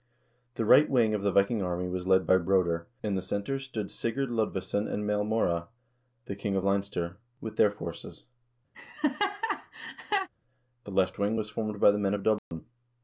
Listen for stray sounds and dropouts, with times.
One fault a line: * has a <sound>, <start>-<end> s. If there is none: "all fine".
* has a laugh, 8.7-10.3 s
* has a dropout, 12.4-12.5 s